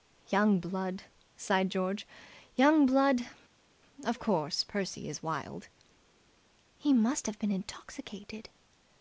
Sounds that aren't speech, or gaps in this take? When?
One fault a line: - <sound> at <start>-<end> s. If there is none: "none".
none